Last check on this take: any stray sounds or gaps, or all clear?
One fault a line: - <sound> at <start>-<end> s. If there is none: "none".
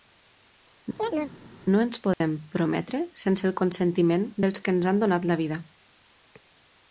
- chirp at 1.0-1.4 s
- dropout at 2.1-2.2 s